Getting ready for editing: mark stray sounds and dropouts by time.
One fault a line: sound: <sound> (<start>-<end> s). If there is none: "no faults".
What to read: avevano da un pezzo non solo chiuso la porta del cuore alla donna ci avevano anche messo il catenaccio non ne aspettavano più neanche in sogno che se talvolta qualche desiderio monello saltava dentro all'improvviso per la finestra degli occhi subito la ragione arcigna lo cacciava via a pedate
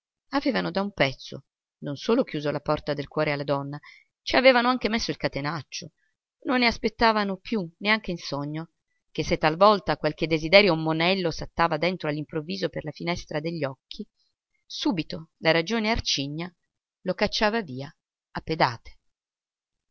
no faults